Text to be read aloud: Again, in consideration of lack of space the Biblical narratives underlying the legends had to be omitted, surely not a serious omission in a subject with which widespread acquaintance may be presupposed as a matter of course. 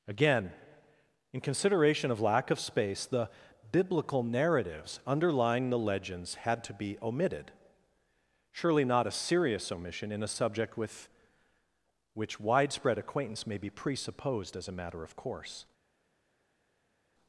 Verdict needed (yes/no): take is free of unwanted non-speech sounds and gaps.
yes